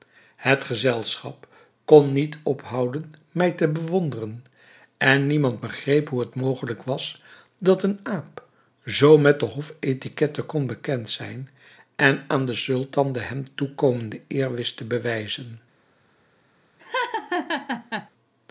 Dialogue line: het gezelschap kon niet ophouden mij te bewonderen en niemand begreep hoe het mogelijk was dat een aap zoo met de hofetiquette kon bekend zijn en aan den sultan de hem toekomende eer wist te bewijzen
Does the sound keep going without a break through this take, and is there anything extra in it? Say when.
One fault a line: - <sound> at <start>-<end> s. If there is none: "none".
- laugh at 16.8-18.1 s